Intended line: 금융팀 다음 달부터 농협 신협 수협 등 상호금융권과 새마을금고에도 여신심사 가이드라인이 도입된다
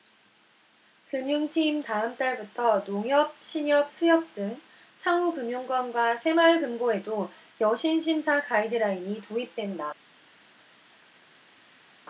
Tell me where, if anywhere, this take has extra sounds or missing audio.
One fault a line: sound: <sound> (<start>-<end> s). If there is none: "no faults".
no faults